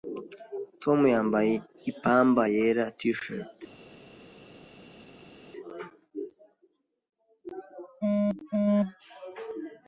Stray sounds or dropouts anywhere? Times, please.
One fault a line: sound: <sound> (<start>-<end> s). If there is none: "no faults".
no faults